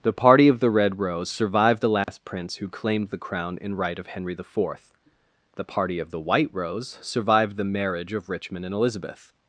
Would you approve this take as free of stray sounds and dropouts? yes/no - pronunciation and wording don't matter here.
no